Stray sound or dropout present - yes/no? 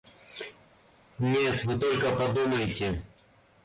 no